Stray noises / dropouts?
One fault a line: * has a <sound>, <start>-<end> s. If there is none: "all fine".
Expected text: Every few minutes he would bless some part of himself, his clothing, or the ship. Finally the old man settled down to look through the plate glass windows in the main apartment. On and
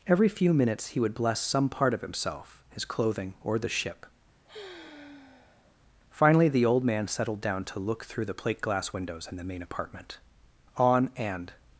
* has a sigh, 4.4-5.8 s